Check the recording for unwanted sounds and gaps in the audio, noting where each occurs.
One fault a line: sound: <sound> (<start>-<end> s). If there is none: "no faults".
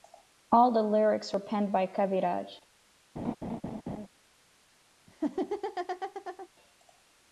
sound: laugh (3.2-4.1 s)
sound: laugh (5.1-6.5 s)